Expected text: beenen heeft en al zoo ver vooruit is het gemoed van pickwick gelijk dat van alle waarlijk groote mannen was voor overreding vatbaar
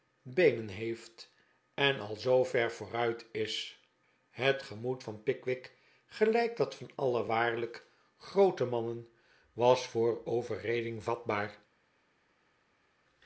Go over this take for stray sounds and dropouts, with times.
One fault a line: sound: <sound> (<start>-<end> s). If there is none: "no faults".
no faults